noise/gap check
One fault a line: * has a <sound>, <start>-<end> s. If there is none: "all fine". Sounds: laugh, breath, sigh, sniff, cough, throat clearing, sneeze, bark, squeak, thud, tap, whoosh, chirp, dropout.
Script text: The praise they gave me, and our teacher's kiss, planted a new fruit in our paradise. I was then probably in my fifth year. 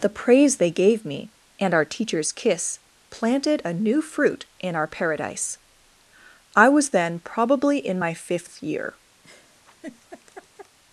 * has a laugh, 9.2-10.8 s